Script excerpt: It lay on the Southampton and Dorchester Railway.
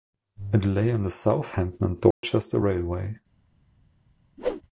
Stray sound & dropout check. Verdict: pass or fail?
fail